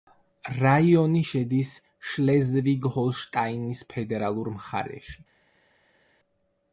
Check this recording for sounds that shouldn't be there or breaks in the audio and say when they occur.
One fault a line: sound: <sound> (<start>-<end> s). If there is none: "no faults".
no faults